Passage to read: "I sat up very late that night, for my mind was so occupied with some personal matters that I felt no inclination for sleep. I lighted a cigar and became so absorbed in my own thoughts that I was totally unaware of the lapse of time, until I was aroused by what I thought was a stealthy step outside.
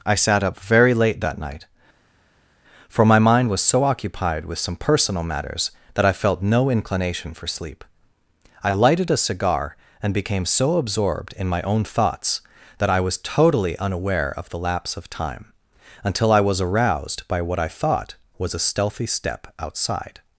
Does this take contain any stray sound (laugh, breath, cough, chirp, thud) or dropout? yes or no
no